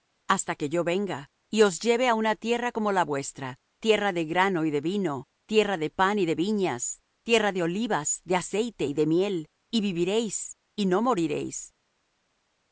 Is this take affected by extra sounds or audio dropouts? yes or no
no